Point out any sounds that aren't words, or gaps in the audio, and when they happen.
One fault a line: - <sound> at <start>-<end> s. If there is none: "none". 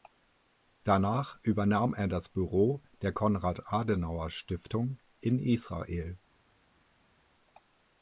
none